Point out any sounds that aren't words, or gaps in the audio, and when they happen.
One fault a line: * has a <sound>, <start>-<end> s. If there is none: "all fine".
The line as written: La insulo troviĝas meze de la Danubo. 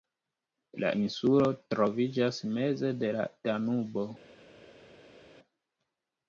all fine